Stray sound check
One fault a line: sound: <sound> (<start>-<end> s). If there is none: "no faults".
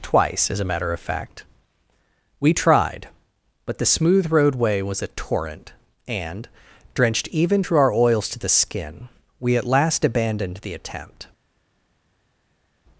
no faults